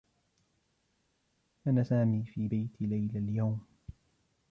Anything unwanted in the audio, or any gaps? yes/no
no